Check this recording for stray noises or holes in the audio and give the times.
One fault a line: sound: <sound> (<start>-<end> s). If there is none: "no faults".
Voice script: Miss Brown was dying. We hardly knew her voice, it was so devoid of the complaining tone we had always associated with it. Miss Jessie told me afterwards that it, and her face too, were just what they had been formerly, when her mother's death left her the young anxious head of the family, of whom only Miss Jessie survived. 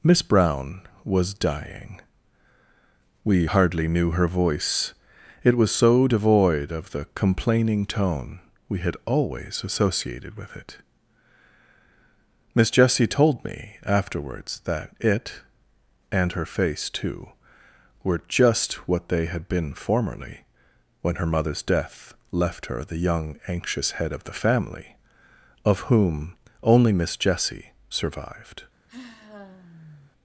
sound: sigh (28.9-30.1 s)